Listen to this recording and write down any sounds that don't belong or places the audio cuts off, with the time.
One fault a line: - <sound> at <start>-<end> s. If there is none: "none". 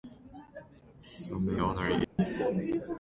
- dropout at 2.0-2.2 s